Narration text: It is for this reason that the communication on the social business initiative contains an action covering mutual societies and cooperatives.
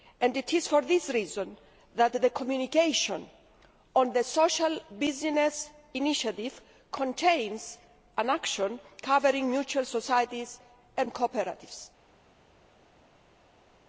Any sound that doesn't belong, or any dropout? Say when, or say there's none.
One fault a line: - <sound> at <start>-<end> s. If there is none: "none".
none